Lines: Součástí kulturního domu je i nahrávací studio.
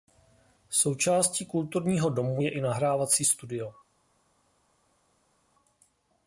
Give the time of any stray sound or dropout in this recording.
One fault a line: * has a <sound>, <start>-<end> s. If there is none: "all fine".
all fine